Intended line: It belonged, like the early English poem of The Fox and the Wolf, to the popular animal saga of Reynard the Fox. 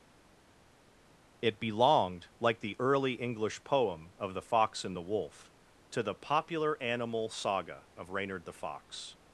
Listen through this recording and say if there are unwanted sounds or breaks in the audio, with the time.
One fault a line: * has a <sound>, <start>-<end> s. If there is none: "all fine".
all fine